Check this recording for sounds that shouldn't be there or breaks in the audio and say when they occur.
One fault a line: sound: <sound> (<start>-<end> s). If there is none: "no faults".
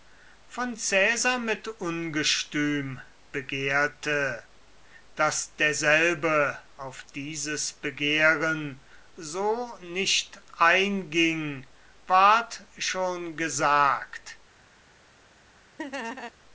sound: laugh (15.8-16.3 s)